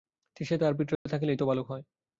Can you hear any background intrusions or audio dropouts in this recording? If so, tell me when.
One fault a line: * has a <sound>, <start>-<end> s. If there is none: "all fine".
* has a dropout, 1.0-1.1 s